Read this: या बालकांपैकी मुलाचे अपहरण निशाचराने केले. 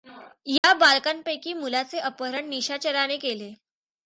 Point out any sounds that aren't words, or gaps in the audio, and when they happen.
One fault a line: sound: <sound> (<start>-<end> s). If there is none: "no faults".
sound: dropout (0.6-0.6 s)